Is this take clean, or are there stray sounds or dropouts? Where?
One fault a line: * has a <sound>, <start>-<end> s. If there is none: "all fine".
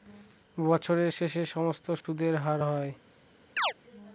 * has a dropout, 2.0-2.0 s
* has a chirp, 3.6-3.7 s